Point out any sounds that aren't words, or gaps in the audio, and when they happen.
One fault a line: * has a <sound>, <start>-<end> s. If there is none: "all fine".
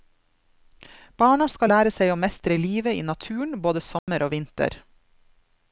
* has a dropout, 4.0-4.1 s